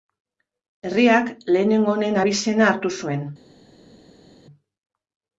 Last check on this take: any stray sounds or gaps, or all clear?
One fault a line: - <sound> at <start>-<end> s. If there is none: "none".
none